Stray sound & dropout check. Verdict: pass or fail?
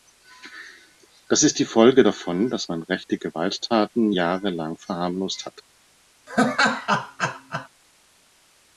fail